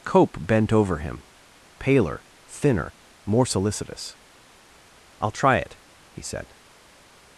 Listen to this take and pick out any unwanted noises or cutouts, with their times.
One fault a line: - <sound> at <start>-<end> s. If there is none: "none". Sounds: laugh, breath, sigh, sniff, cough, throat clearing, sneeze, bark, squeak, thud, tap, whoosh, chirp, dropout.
none